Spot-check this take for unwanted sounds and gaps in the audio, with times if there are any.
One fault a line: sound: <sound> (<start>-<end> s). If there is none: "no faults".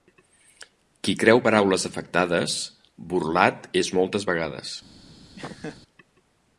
sound: laugh (5.4-5.8 s)